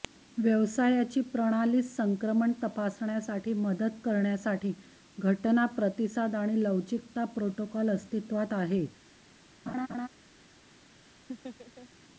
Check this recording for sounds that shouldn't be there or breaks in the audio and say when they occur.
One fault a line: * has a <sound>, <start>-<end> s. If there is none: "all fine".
* has a laugh, 9.7-10.1 s
* has a laugh, 11.3-11.9 s